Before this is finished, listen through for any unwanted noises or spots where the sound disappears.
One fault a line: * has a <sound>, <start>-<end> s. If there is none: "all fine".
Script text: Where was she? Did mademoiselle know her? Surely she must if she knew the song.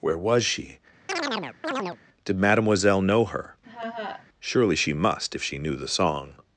* has a chirp, 1.1-2.0 s
* has a laugh, 3.6-4.3 s